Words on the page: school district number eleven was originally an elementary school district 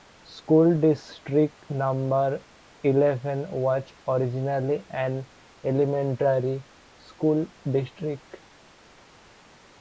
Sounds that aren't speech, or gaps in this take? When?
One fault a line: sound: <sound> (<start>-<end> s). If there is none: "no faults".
no faults